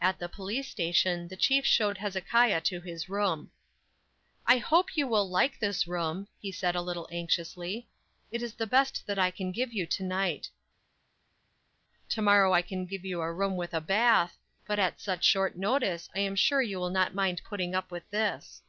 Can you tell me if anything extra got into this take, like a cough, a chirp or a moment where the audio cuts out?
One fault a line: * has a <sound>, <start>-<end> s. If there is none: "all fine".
all fine